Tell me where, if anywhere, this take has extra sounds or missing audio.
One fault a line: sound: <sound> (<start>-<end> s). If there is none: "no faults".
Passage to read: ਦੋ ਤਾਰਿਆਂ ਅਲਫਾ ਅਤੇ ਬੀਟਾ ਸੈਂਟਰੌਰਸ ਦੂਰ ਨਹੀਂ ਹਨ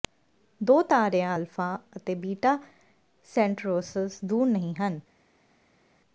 no faults